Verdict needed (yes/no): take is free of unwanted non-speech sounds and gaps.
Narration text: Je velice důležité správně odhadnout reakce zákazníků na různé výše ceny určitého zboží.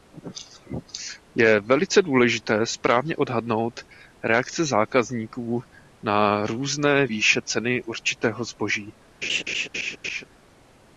no